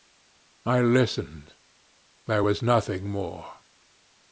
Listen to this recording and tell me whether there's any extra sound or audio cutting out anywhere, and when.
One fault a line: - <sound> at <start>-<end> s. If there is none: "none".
none